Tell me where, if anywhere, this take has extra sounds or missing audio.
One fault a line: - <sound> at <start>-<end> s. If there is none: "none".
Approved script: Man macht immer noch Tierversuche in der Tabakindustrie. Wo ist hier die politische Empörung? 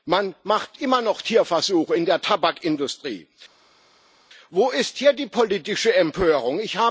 none